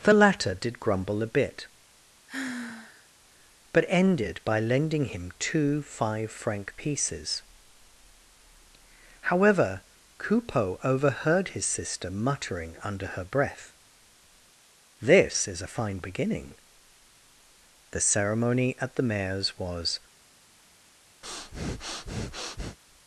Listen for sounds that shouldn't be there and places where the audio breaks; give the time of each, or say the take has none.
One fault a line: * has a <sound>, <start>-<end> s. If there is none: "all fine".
* has a sigh, 2.3-3.1 s
* has a breath, 21.2-22.8 s